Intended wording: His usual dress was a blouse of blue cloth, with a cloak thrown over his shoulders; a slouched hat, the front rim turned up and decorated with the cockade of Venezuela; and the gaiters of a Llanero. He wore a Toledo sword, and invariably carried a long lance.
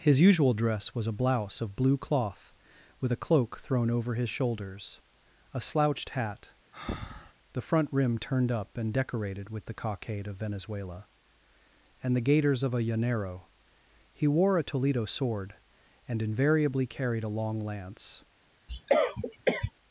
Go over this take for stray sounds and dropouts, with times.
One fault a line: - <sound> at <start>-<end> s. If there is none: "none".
- breath at 6.7-7.3 s
- cough at 18.7-19.7 s